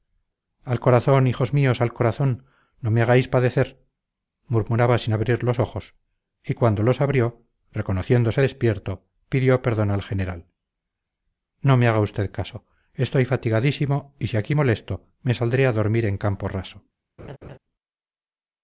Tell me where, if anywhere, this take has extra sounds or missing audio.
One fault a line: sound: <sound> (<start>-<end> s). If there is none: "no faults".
sound: laugh (17.2-17.6 s)